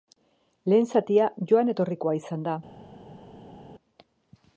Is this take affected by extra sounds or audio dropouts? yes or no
no